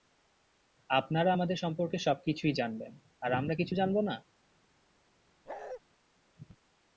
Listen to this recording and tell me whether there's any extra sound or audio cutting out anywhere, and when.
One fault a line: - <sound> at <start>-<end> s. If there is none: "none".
- bark at 5.5-5.8 s